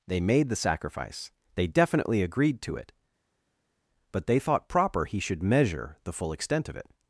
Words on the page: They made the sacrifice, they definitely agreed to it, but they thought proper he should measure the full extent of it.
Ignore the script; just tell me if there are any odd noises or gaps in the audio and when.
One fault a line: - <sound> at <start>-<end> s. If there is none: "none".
none